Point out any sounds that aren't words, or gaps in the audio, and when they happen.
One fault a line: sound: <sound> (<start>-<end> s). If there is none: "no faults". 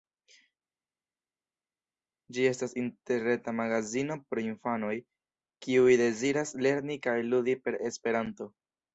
no faults